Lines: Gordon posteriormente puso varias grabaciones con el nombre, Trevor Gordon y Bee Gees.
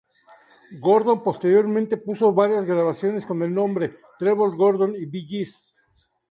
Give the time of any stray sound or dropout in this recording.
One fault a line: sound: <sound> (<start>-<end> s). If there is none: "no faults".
no faults